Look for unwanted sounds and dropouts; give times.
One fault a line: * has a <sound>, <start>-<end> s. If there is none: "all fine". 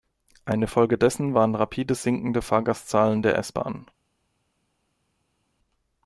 all fine